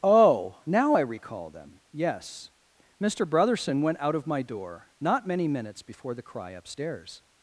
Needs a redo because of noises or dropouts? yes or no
no